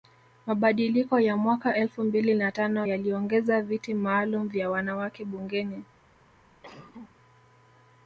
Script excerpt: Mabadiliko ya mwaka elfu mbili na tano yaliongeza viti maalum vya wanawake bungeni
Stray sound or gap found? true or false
true